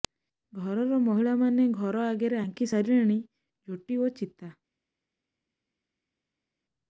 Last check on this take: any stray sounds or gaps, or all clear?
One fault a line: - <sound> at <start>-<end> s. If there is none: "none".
none